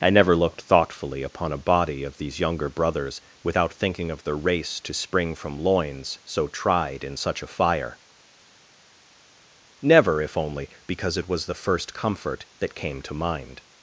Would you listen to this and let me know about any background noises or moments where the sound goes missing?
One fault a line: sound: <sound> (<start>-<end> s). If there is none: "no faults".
no faults